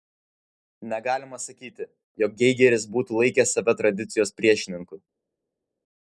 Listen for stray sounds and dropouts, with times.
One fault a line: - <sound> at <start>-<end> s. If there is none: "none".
none